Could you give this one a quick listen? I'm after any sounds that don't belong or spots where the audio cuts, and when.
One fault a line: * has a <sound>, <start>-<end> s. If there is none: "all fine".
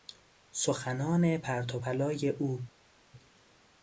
all fine